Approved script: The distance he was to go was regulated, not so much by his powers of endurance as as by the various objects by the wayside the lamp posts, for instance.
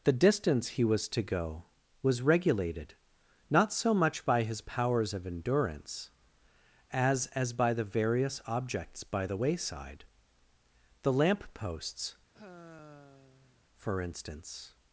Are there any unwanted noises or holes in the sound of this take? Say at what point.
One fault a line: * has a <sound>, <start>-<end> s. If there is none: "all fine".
* has a sigh, 12.3-13.6 s